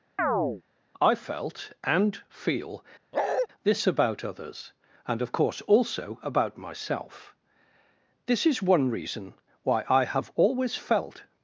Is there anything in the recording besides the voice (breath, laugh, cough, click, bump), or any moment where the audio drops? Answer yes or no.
yes